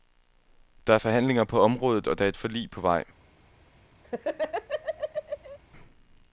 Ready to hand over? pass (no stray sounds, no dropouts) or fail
fail